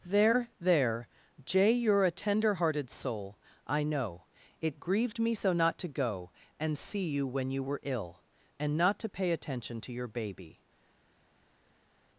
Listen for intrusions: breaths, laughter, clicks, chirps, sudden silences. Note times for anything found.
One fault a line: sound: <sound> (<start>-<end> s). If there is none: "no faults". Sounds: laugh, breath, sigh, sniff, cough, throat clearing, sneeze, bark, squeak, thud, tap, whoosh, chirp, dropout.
no faults